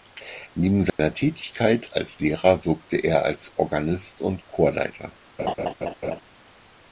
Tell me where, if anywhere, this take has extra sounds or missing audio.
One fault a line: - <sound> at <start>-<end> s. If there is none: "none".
- dropout at 0.9-1.0 s
- laugh at 5.4-6.2 s